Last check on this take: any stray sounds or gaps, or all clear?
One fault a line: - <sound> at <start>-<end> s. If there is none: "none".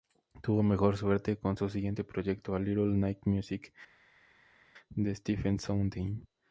none